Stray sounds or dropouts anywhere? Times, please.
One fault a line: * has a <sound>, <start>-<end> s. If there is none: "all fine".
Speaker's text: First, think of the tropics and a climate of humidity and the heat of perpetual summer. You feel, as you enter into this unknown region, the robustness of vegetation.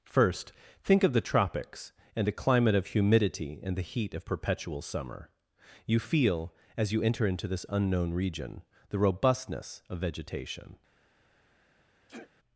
* has a sneeze, 12.1-12.3 s